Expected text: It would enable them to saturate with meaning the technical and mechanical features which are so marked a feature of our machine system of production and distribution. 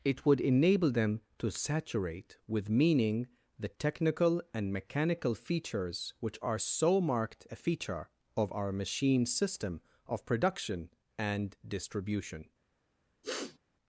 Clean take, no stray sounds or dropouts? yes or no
no